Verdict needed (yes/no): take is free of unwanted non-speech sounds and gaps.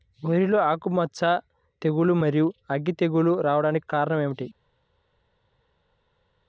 yes